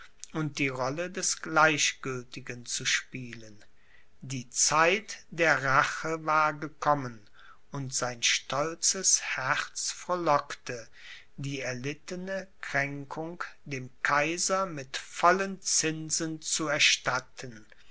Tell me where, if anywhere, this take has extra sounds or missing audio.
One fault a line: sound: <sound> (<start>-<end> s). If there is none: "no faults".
no faults